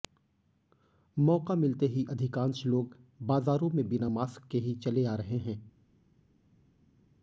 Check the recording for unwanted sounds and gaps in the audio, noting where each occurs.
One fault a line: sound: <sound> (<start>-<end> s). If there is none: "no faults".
no faults